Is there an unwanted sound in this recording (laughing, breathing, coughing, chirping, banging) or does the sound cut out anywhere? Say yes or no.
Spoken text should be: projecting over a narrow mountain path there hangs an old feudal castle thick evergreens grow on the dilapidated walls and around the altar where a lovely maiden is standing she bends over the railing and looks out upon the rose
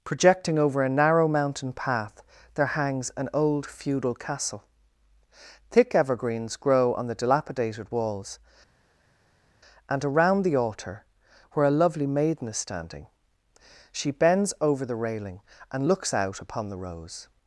no